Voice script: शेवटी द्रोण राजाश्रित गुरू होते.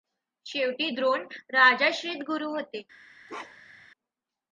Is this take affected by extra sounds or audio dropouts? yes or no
yes